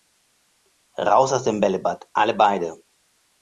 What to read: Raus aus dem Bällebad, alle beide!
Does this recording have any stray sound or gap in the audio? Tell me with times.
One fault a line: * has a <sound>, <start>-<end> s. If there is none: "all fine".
all fine